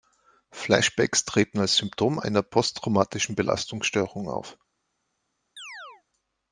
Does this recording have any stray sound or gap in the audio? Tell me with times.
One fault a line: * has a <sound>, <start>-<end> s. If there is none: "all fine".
* has a chirp, 5.6-6.0 s